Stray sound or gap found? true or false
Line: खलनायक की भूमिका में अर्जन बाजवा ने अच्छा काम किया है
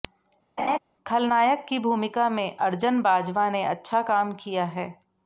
true